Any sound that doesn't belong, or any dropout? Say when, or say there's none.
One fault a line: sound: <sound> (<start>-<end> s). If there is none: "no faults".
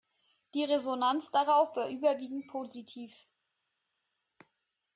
no faults